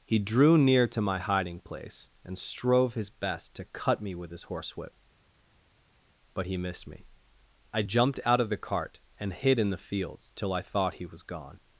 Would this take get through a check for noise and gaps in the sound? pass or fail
pass